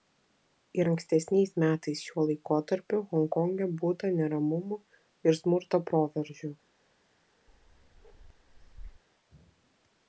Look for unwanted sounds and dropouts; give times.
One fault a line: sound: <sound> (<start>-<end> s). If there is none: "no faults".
sound: bark (7.5-9.0 s)